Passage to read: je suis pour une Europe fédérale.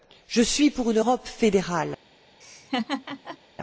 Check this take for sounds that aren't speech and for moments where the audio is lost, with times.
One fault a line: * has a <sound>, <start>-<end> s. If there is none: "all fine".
* has a laugh, 2.4-3.4 s